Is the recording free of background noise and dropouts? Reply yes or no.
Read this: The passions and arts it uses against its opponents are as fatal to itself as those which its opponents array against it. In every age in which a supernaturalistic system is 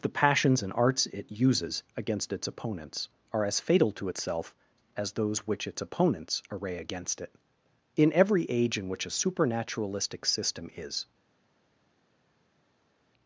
yes